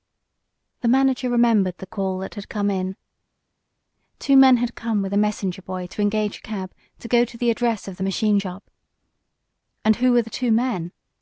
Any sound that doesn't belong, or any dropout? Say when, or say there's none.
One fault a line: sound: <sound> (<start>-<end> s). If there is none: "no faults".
no faults